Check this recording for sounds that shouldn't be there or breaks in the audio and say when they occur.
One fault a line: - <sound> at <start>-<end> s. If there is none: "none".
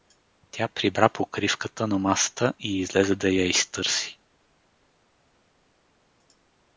none